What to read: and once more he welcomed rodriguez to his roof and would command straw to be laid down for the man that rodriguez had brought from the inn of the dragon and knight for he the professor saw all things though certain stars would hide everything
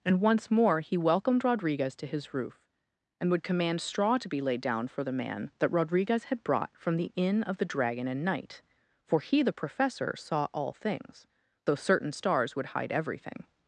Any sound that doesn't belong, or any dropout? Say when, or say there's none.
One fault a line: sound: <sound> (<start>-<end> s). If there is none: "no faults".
no faults